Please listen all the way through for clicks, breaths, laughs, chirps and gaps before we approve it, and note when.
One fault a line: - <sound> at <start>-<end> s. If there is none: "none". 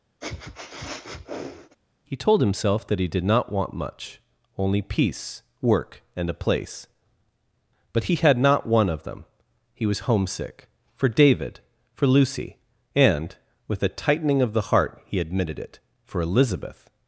- sniff at 0.2-1.8 s